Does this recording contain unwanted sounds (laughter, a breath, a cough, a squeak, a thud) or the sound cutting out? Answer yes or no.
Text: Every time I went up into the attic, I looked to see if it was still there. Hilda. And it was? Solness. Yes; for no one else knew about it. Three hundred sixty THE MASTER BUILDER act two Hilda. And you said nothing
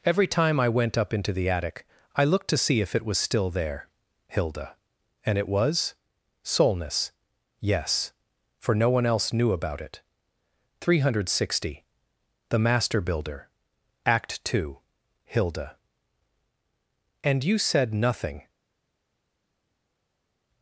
no